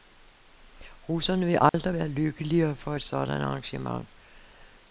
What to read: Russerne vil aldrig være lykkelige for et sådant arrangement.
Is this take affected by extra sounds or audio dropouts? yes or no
yes